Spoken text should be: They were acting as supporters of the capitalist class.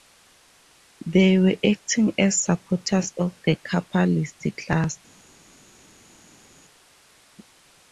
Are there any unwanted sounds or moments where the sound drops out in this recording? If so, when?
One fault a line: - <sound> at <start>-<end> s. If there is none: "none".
none